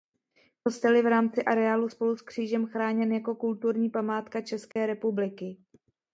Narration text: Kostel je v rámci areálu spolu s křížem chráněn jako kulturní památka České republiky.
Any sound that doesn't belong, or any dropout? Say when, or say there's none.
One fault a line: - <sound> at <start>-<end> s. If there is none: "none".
- dropout at 4.7-4.8 s